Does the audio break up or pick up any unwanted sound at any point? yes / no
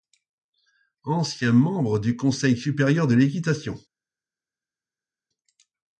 no